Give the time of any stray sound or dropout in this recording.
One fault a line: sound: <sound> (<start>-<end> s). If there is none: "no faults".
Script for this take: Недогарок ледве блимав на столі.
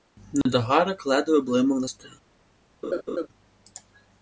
sound: dropout (0.4-0.5 s)
sound: laugh (2.8-3.3 s)